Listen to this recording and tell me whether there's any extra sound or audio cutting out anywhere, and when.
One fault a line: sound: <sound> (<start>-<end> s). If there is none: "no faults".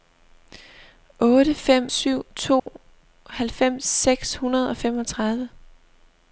sound: dropout (2.6-2.7 s)